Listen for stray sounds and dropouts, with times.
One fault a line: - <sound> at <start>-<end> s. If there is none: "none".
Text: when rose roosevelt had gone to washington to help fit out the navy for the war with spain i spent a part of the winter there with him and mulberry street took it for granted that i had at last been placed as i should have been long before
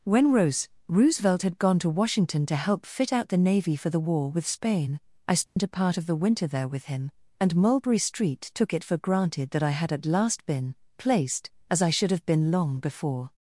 - dropout at 5.5-5.6 s